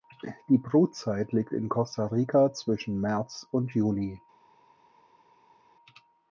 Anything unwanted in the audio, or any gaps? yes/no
no